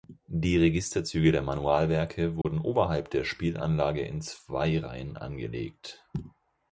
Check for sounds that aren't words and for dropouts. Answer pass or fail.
fail